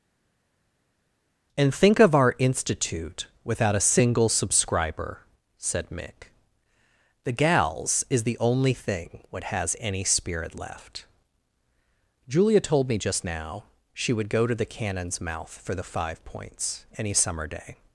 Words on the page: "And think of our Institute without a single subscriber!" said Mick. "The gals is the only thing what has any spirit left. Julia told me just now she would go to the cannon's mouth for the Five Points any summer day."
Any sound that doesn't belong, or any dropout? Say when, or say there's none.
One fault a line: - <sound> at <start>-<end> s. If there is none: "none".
none